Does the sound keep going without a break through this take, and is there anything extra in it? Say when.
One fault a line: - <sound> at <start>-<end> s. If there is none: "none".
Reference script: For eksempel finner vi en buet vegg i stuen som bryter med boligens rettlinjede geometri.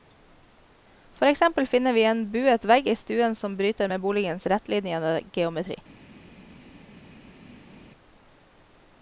none